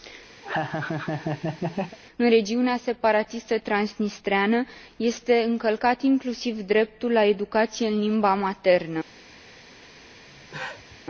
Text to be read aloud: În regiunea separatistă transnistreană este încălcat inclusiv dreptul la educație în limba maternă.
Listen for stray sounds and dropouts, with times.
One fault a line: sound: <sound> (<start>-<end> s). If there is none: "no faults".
sound: laugh (0.4-2.0 s)
sound: cough (10.3-11.0 s)